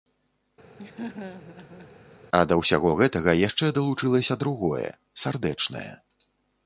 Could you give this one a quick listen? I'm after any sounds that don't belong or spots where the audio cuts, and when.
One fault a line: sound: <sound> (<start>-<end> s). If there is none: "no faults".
sound: laugh (0.8-1.9 s)